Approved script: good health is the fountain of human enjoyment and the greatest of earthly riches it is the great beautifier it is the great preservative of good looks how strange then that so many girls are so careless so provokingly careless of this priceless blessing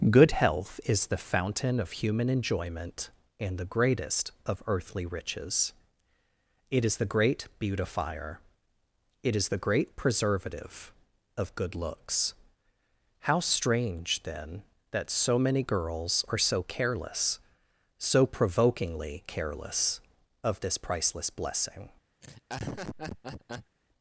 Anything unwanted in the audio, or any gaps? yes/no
yes